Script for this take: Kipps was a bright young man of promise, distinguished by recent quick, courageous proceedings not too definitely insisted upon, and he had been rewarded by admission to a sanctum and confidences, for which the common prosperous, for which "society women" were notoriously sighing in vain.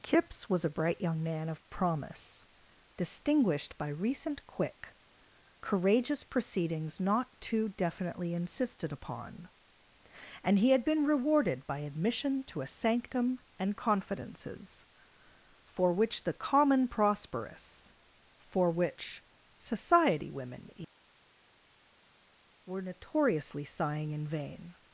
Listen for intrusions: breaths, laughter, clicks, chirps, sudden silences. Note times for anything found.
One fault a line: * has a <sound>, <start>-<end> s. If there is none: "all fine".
all fine